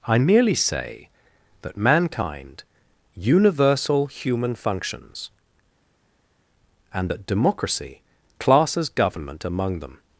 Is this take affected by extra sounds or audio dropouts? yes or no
no